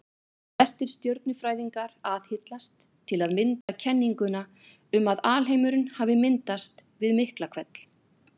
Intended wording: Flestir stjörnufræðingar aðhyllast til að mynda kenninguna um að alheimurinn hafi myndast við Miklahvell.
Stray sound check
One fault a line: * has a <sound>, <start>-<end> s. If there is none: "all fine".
* has a dropout, 3.6-3.7 s